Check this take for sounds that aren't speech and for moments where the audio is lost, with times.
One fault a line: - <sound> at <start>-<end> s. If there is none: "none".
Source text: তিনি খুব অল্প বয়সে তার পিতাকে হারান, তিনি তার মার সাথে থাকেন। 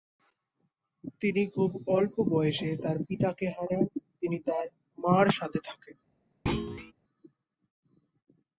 - thud at 6.5-6.9 s